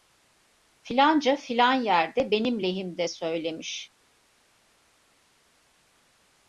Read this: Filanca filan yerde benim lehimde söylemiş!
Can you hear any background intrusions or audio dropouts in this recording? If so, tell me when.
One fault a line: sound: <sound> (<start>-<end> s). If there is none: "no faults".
no faults